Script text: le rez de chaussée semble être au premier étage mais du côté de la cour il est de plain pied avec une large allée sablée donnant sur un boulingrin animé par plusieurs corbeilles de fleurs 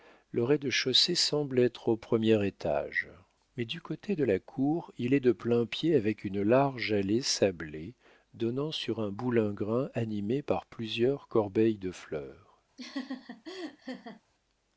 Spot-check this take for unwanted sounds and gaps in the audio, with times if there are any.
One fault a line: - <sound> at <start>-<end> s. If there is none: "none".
- laugh at 12.8-14.2 s